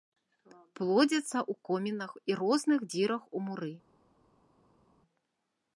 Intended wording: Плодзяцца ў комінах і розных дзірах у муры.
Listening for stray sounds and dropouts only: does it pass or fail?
pass